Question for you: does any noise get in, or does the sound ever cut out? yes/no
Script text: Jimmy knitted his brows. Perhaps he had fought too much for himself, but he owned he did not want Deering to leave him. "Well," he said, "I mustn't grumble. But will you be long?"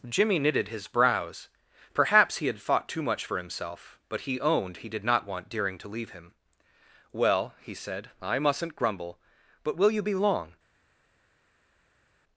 no